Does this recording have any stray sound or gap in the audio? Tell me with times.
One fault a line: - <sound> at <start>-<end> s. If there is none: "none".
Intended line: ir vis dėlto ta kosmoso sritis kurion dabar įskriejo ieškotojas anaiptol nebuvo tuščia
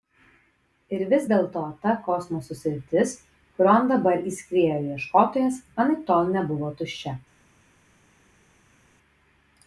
none